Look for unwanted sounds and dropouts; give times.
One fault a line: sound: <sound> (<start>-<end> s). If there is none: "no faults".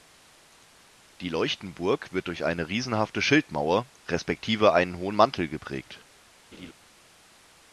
sound: laugh (6.5-6.7 s)